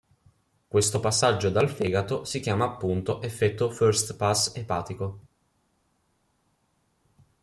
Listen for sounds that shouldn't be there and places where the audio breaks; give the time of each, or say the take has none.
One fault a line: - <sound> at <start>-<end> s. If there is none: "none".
none